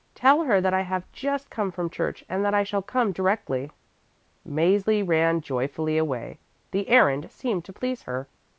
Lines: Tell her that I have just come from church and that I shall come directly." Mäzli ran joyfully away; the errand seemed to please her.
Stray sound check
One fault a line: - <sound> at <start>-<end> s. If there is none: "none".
none